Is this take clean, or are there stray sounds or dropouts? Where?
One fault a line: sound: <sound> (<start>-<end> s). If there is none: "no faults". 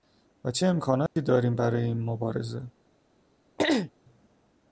sound: dropout (1.1-1.2 s)
sound: throat clearing (3.6-3.9 s)